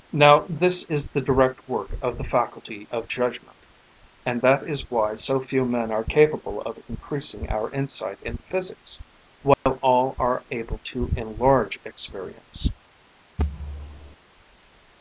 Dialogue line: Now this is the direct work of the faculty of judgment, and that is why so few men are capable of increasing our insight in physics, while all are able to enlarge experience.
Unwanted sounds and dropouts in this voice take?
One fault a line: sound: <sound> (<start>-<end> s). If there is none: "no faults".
sound: dropout (9.5-9.7 s)
sound: thud (13.4-14.2 s)